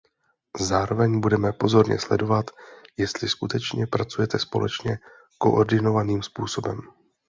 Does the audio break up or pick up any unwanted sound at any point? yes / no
no